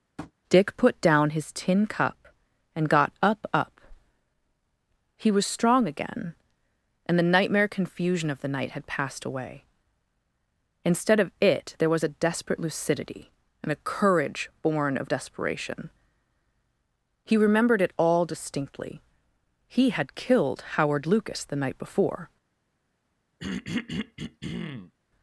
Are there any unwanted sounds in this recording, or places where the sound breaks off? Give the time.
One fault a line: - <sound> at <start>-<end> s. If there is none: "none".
- tap at 0.2-0.3 s
- throat clearing at 23.4-24.9 s